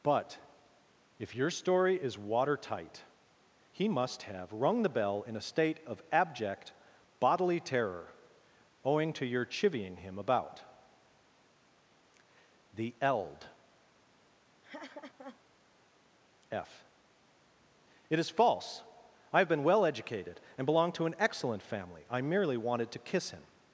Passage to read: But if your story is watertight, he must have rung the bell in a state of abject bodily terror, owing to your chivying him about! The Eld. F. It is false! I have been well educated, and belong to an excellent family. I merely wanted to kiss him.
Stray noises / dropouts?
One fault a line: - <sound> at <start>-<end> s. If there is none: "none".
- laugh at 14.6-15.4 s